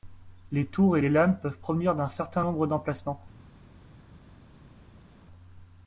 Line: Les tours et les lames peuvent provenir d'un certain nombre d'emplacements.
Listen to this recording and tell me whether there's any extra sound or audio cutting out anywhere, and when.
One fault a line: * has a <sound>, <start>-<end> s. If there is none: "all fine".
all fine